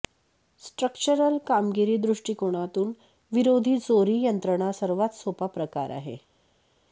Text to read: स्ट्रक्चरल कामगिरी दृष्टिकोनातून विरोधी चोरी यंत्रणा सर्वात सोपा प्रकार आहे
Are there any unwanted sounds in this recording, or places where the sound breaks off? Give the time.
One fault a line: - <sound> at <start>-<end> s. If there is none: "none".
none